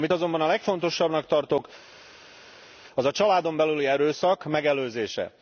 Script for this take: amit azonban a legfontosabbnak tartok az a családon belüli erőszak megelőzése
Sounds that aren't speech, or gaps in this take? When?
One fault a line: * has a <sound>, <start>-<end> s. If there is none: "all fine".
all fine